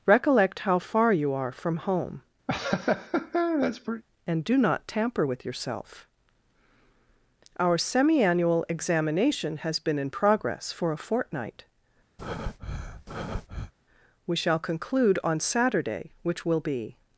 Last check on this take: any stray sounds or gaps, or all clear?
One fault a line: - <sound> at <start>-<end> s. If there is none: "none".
- laugh at 2.5-4.0 s
- breath at 12.2-13.7 s